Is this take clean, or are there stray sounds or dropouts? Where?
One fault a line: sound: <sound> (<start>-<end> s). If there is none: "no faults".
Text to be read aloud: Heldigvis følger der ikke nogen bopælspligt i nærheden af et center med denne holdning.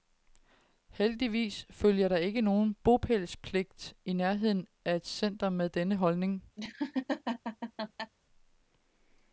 sound: laugh (6.6-8.1 s)